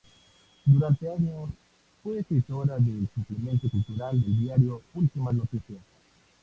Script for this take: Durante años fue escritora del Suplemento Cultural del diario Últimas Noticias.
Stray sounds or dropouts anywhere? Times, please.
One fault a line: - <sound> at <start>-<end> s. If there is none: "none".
none